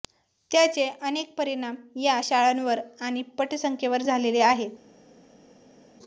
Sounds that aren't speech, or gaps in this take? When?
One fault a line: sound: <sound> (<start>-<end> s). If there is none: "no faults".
no faults